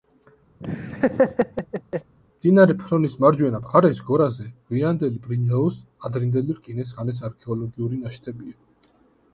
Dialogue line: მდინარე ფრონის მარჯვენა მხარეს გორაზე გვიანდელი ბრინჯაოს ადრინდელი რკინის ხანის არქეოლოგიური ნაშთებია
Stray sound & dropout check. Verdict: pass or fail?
fail